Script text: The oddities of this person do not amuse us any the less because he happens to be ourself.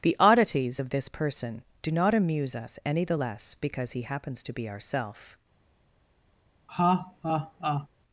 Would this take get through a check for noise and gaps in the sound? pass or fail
fail